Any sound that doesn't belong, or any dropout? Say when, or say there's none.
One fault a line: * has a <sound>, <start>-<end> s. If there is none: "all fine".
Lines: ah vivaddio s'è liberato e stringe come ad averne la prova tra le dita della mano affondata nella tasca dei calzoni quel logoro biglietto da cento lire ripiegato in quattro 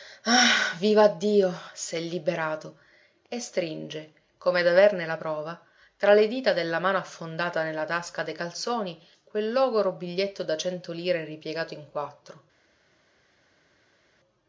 all fine